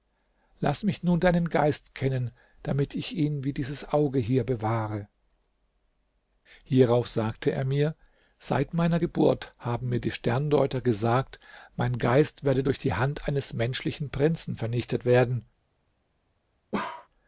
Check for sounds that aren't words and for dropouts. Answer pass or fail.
fail